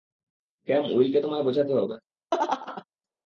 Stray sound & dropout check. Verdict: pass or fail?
fail